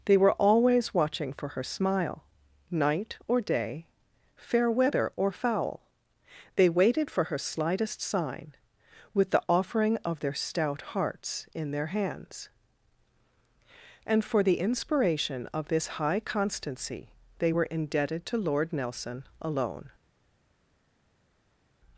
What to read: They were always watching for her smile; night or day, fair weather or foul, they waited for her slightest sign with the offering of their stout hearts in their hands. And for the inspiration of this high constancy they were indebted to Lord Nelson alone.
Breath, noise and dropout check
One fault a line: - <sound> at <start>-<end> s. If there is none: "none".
none